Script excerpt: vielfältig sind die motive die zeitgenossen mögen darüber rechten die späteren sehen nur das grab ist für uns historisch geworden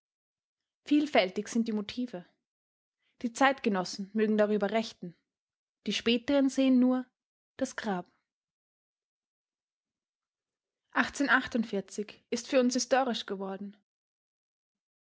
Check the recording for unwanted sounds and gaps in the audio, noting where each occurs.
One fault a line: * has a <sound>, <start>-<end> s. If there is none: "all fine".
all fine